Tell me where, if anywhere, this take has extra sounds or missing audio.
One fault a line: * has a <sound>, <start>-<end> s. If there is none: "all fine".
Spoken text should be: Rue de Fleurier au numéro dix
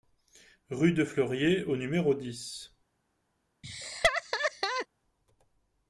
* has a laugh, 3.6-4.9 s